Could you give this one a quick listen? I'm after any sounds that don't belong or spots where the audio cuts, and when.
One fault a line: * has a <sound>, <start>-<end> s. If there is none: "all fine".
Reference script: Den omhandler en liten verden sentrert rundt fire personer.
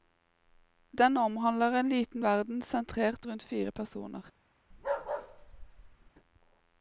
* has a bark, 4.7-6.1 s